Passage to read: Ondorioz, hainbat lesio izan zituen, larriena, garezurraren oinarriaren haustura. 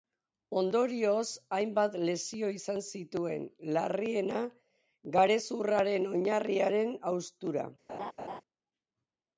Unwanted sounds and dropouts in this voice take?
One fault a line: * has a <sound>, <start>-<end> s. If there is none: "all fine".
* has a laugh, 7.9-8.4 s